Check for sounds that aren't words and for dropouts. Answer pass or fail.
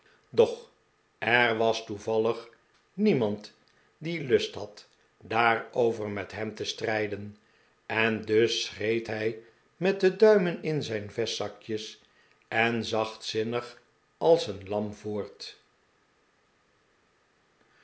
pass